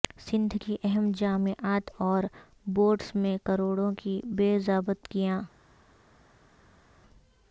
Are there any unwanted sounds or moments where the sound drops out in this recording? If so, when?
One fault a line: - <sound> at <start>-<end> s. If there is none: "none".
none